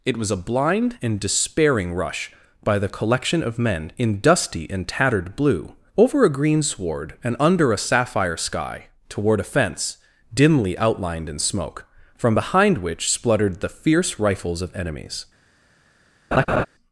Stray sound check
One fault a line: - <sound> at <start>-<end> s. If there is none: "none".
- laugh at 16.3-16.7 s